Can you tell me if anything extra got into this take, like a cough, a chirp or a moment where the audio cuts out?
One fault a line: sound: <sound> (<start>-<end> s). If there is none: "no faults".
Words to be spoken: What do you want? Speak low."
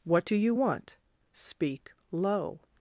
no faults